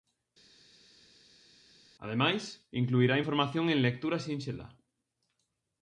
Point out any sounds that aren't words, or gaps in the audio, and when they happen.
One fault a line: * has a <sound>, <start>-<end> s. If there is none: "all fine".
all fine